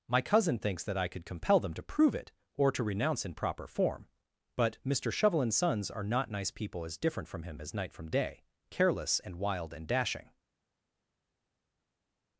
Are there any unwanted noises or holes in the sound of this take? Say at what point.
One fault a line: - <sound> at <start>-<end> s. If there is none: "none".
none